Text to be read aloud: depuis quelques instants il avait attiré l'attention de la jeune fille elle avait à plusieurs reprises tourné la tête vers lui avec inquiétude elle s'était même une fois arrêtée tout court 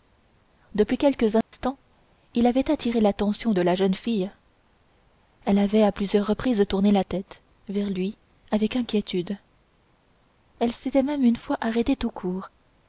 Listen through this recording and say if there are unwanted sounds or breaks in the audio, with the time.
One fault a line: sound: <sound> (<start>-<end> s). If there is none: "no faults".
sound: dropout (1.4-1.5 s)